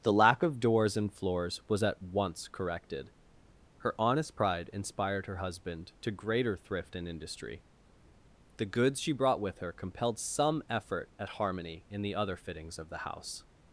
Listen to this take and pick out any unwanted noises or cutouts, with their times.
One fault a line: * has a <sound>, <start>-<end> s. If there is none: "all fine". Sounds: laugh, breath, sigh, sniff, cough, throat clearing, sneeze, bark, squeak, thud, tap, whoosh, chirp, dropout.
all fine